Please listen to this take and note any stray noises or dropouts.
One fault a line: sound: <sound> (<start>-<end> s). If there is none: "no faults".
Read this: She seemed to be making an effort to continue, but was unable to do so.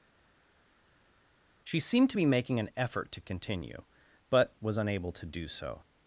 no faults